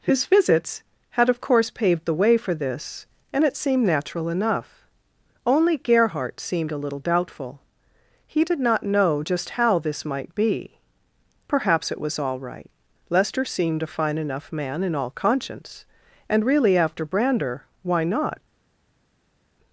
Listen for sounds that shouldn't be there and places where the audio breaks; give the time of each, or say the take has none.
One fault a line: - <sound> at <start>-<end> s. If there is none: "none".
none